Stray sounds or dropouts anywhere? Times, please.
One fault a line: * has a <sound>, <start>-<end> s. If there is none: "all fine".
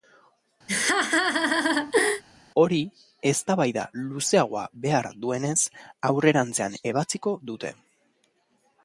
* has a laugh, 0.7-2.2 s